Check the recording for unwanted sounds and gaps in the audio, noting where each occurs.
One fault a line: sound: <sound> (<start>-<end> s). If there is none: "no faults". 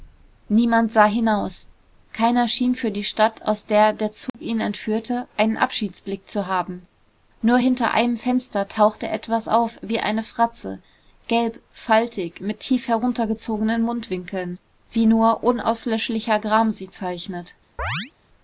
sound: dropout (4.3-4.3 s)
sound: chirp (17.8-18.1 s)